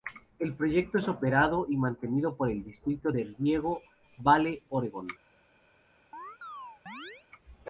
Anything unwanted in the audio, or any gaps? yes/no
yes